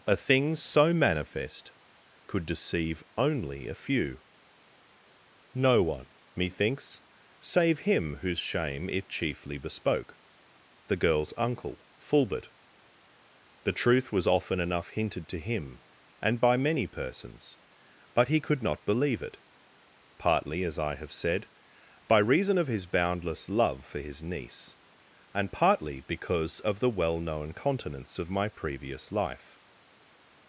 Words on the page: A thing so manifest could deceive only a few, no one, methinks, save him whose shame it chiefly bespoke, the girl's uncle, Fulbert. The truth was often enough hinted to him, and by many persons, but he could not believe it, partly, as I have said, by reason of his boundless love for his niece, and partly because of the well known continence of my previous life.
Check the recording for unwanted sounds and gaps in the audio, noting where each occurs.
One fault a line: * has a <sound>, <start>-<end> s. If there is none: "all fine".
all fine